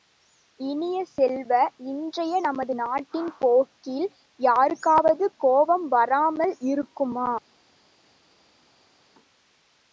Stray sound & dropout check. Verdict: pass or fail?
pass